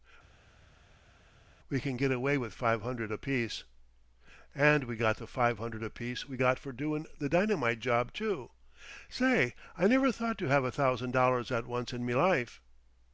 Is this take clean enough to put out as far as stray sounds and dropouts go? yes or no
yes